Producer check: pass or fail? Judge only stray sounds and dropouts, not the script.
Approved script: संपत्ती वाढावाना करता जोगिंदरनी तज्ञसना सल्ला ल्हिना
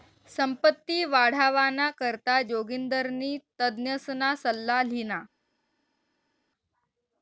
pass